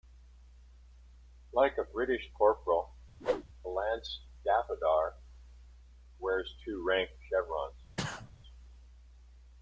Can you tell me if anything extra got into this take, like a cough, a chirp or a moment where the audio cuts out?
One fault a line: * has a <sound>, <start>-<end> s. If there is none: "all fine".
* has a whoosh, 3.2-3.4 s
* has a sneeze, 8.0-8.3 s